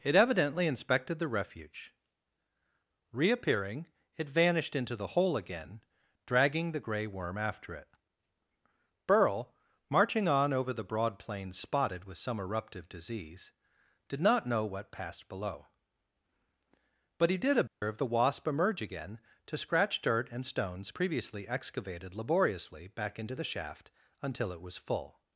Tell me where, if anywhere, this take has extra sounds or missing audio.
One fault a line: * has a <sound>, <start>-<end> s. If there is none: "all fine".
* has a dropout, 17.7-17.8 s